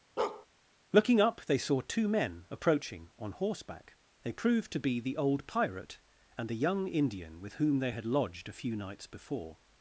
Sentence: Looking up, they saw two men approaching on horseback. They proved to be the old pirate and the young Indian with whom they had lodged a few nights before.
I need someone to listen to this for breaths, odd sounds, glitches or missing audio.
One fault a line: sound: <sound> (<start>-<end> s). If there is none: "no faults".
sound: bark (0.2-0.5 s)